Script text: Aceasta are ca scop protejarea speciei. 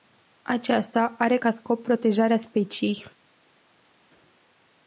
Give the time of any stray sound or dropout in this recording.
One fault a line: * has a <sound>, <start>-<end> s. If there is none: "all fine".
all fine